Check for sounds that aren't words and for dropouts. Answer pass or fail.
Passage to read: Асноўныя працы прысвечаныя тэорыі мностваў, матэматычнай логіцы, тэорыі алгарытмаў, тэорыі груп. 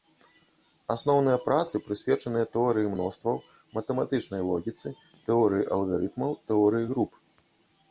pass